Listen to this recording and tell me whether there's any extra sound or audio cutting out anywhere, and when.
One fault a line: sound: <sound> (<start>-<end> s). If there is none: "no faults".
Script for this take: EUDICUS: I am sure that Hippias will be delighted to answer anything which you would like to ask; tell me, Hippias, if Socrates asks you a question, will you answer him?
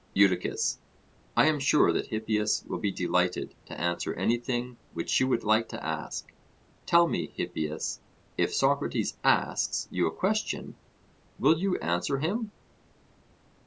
no faults